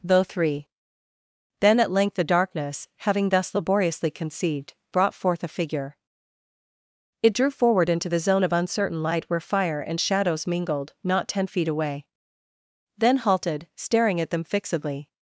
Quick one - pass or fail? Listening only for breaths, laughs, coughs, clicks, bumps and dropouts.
pass